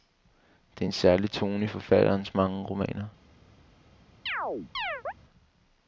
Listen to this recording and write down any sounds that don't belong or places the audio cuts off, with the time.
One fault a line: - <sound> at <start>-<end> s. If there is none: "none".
- chirp at 4.3-5.1 s